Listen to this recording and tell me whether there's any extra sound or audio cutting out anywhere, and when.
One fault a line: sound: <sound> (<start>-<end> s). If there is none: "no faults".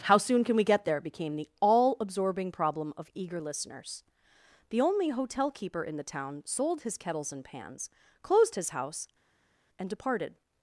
no faults